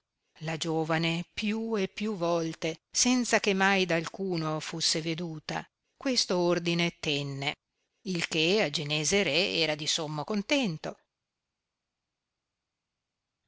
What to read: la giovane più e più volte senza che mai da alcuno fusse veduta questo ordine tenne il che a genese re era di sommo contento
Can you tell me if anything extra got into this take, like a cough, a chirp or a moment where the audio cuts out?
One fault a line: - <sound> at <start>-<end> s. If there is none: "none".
none